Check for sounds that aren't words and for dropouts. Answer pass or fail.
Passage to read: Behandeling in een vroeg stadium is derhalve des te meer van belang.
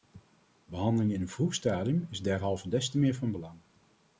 pass